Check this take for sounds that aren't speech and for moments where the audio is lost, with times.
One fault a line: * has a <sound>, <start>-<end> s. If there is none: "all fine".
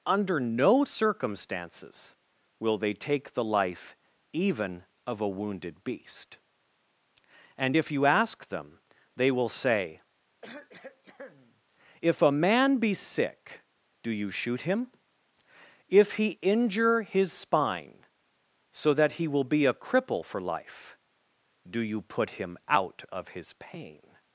* has a cough, 10.4-11.6 s